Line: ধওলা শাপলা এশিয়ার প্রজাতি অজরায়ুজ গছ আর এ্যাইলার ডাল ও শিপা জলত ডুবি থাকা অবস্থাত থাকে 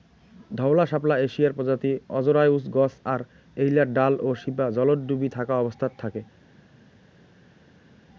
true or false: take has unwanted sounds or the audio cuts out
false